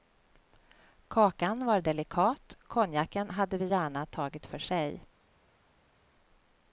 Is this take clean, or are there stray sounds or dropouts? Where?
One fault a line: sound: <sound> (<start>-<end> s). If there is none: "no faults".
no faults